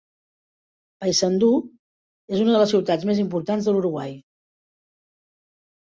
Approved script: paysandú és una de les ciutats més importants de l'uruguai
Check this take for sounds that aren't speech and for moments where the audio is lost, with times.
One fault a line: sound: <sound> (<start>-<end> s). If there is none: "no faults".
no faults